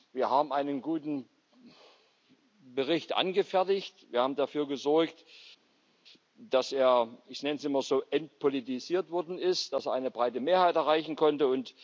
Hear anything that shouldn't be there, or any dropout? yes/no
no